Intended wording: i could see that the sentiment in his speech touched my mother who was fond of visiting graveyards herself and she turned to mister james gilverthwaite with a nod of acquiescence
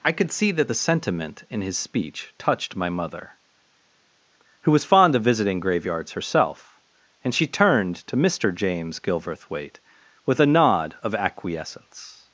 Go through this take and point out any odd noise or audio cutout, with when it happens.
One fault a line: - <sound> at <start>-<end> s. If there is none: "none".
none